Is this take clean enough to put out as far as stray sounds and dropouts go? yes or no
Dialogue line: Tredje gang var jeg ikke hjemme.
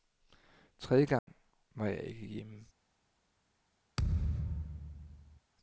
no